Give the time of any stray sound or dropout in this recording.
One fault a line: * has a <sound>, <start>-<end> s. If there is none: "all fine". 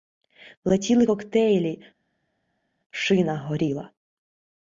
all fine